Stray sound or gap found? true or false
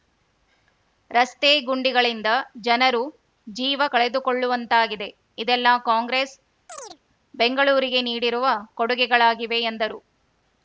true